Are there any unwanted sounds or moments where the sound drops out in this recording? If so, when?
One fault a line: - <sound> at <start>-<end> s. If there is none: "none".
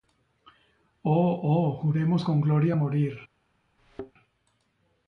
- thud at 3.8-4.1 s